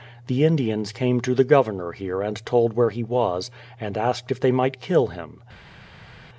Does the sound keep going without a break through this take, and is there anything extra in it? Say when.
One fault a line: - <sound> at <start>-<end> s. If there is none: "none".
none